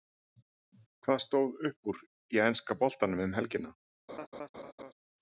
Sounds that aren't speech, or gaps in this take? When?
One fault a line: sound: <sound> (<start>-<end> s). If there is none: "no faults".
sound: laugh (4.1-4.9 s)